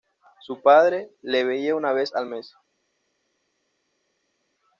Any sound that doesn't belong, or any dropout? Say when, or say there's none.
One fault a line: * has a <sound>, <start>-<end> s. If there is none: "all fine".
all fine